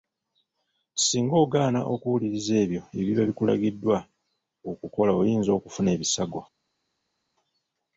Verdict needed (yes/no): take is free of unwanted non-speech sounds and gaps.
yes